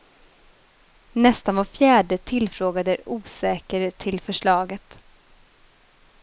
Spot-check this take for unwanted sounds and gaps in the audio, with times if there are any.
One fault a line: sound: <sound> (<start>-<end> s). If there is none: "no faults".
no faults